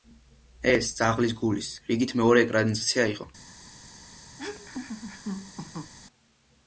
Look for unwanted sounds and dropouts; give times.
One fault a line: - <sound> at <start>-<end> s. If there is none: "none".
- laugh at 4.4-5.9 s